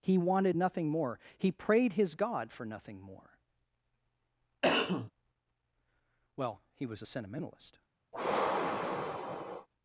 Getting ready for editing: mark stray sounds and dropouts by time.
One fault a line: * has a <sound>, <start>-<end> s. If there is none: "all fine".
* has a cough, 4.6-5.1 s
* has a sigh, 8.1-9.7 s